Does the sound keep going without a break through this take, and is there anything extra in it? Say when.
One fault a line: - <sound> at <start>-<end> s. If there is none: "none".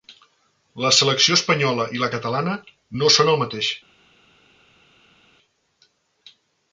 none